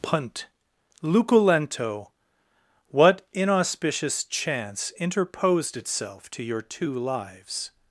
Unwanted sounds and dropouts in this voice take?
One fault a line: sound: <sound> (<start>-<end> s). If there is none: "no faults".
no faults